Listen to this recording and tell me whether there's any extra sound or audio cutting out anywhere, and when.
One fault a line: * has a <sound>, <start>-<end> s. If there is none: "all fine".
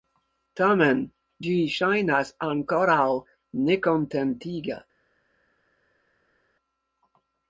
all fine